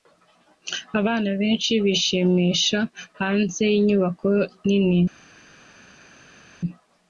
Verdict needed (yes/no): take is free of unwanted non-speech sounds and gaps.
yes